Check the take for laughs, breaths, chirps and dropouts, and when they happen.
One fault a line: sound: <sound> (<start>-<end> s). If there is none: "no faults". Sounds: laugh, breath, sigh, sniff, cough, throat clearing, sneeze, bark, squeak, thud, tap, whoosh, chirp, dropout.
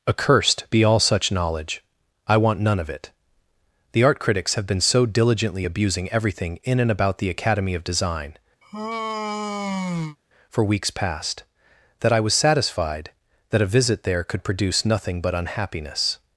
sound: sigh (8.6-10.2 s)